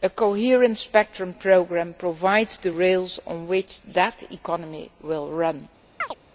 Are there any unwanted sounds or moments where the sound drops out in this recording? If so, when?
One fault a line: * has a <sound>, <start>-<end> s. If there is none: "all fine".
* has a chirp, 6.0-6.2 s